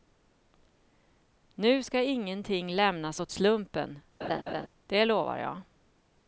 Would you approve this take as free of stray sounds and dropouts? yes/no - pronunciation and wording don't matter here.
no